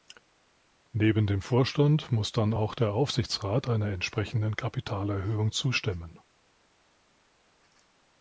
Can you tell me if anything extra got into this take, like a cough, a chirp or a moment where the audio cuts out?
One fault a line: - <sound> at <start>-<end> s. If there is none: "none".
none